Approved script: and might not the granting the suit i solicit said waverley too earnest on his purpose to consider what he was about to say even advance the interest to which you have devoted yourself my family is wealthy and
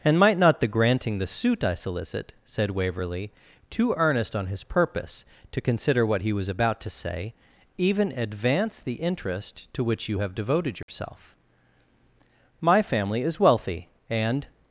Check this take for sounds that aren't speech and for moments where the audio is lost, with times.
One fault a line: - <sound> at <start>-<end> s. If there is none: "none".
- dropout at 10.8-10.9 s